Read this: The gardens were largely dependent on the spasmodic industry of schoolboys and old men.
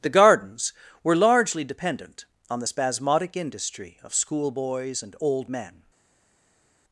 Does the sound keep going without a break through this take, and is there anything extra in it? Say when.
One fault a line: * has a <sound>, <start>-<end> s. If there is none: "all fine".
all fine